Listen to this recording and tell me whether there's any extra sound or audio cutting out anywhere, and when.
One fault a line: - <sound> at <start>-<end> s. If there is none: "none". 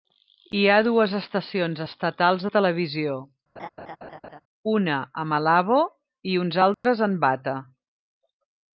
- laugh at 3.6-4.4 s
- dropout at 6.7-6.8 s